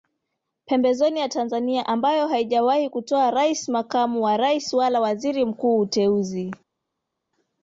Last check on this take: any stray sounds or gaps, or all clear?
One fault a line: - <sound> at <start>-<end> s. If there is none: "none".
none